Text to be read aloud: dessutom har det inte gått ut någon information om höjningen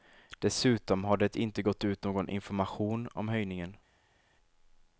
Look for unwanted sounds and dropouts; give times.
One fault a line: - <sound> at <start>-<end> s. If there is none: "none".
none